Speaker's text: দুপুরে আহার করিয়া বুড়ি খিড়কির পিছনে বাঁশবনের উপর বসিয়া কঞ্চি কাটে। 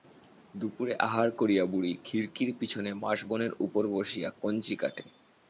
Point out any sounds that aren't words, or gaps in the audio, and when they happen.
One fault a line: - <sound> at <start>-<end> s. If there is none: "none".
none